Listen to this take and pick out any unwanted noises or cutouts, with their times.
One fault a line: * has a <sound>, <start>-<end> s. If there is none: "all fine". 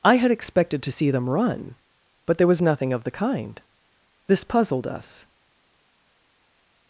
all fine